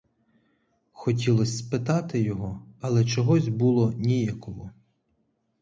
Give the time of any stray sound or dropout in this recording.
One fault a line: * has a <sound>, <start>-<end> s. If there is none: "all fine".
all fine